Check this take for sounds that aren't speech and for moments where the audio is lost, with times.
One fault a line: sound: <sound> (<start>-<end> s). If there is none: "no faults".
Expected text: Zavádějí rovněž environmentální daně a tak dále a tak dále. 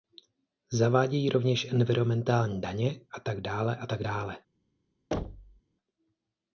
sound: thud (5.1-5.6 s)